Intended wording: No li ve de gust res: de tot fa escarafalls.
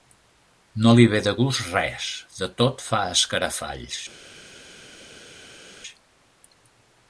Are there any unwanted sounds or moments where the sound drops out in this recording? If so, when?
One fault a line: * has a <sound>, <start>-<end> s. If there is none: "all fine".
all fine